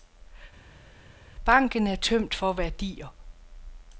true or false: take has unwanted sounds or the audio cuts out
false